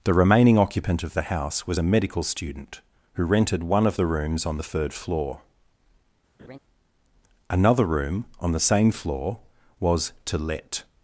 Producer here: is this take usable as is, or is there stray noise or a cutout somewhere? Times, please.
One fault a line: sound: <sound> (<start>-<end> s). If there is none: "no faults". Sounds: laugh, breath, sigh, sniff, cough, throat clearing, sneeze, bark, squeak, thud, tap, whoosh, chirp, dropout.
sound: laugh (6.4-6.6 s)